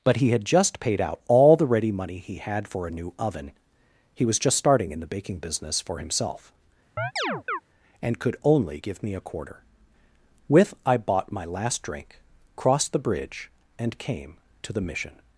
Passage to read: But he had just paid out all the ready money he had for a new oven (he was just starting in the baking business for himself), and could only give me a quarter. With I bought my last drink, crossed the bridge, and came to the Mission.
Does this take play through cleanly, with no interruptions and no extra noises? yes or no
no